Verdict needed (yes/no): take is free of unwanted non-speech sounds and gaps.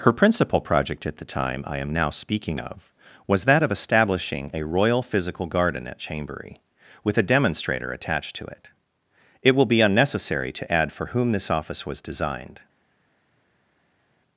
yes